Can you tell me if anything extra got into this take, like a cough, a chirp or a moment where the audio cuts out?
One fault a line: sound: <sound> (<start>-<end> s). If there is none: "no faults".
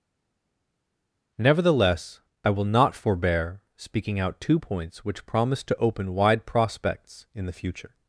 no faults